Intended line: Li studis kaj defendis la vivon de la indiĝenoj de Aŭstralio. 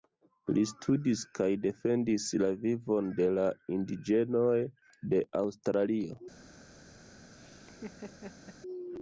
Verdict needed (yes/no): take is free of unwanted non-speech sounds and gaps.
no